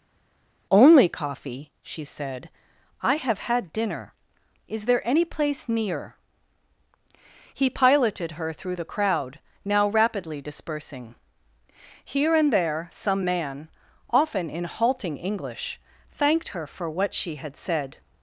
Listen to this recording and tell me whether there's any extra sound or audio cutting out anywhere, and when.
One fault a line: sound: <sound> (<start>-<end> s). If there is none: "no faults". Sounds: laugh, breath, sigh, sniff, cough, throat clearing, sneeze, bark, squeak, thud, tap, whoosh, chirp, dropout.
no faults